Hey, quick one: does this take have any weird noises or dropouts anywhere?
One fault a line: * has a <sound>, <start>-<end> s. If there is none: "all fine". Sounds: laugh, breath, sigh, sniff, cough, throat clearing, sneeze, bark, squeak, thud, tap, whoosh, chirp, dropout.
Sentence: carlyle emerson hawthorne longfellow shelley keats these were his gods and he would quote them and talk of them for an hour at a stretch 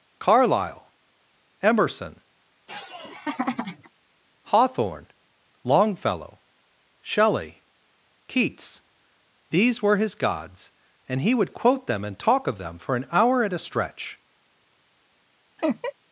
* has a laugh, 2.7-3.9 s
* has a laugh, 15.6-15.9 s